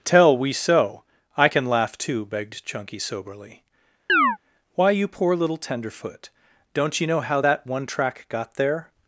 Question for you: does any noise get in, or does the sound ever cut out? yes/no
yes